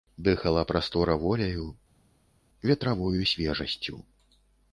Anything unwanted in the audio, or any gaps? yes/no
no